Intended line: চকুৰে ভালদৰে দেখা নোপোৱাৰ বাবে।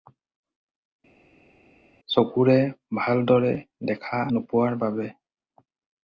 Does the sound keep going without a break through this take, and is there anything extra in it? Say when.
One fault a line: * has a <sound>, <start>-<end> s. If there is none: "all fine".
all fine